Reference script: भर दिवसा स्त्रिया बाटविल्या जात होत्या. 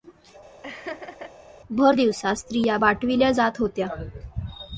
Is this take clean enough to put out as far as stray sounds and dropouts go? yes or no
no